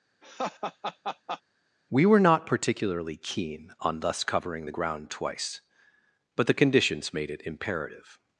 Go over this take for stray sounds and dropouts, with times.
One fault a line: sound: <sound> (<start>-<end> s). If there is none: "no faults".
sound: laugh (0.2-1.4 s)